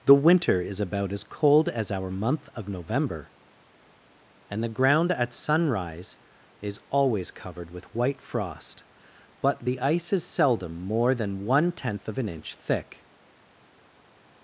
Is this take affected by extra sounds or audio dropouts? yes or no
no